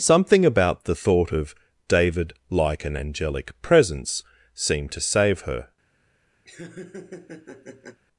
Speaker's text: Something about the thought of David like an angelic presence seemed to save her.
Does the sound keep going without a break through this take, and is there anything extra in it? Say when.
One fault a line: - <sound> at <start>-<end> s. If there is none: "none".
- laugh at 6.4-8.0 s